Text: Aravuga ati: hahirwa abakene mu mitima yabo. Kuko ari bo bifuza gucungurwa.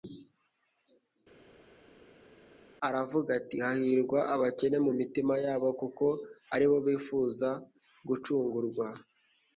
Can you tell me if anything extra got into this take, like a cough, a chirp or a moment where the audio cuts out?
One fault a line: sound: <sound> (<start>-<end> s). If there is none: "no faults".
no faults